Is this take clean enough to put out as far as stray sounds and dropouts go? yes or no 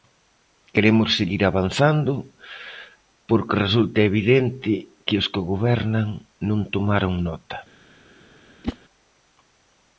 no